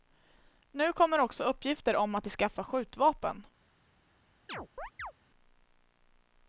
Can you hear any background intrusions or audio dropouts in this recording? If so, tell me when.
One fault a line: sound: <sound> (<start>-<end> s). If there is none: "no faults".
sound: chirp (4.5-5.1 s)